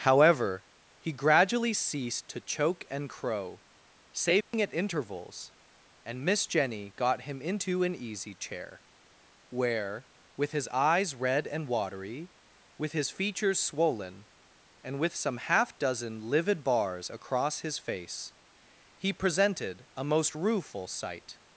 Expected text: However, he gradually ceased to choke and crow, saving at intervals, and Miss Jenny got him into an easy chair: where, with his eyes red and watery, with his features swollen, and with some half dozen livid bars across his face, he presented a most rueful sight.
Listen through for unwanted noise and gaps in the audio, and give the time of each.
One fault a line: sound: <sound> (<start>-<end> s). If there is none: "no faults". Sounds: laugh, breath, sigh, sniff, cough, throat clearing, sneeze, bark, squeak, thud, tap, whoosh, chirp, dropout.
sound: dropout (4.4-4.5 s)